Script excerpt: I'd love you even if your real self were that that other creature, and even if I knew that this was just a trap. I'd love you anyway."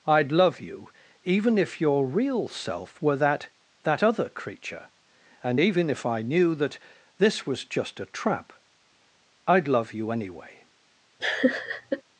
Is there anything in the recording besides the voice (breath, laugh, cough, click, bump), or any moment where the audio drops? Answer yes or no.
yes